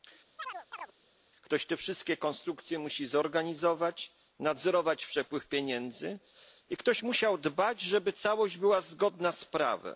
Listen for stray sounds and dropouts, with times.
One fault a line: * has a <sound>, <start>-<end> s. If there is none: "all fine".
* has a chirp, 0.4-0.9 s